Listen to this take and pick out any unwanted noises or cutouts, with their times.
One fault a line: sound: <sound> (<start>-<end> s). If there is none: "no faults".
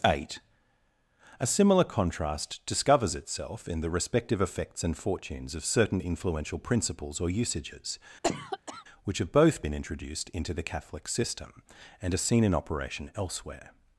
sound: cough (8.2-8.8 s)